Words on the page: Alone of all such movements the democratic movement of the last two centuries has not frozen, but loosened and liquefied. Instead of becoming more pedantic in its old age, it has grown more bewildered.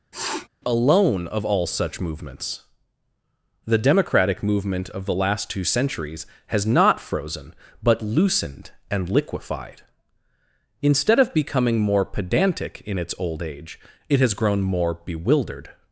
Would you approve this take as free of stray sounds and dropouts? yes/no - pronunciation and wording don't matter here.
no